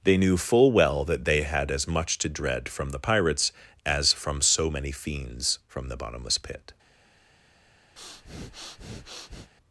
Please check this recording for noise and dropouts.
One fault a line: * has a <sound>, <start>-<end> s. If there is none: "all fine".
* has a breath, 8.0-9.5 s